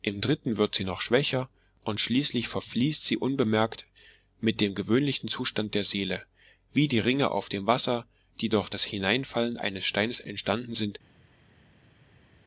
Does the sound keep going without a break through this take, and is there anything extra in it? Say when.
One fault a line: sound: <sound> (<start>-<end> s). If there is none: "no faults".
no faults